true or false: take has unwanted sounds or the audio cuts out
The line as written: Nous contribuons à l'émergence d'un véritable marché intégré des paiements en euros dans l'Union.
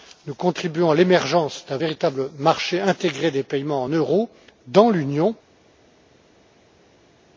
false